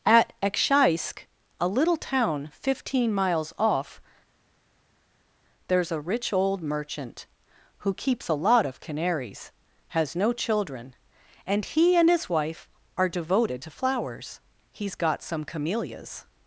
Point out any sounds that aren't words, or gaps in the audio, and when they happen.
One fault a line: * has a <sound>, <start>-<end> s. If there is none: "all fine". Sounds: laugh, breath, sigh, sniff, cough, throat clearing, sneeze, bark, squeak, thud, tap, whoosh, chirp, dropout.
all fine